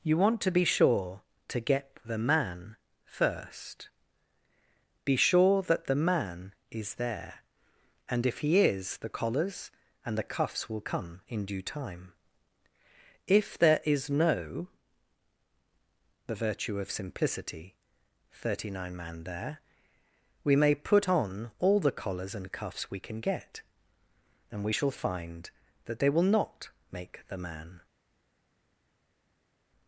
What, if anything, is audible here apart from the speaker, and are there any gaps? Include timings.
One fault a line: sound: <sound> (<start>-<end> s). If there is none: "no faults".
no faults